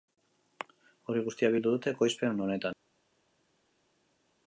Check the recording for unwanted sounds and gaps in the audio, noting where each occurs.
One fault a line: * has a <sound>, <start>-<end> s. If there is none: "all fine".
all fine